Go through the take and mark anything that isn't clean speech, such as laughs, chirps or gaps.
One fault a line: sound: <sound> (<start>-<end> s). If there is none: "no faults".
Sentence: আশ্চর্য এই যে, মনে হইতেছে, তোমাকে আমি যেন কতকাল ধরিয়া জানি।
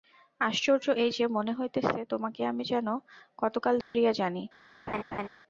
sound: dropout (3.8-3.9 s)
sound: laugh (4.9-5.3 s)